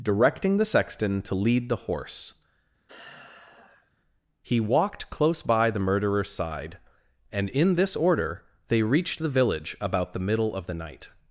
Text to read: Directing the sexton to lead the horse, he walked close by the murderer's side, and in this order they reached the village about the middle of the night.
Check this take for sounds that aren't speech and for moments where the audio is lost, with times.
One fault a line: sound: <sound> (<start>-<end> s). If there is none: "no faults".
sound: sigh (2.9-3.9 s)